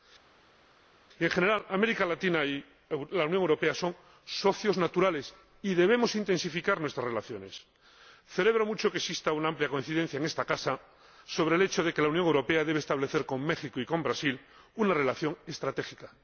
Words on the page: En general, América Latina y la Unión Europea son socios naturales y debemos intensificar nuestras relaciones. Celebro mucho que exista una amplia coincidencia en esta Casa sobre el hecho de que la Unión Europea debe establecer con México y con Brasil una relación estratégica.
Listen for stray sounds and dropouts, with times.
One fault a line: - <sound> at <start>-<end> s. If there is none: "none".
none